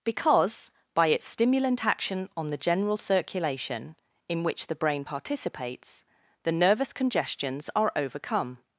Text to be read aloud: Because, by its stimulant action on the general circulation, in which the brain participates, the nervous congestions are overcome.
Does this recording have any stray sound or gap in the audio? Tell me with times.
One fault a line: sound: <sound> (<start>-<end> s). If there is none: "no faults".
no faults